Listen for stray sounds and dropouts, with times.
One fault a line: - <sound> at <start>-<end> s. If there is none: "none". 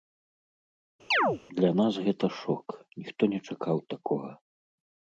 - chirp at 1.1-1.4 s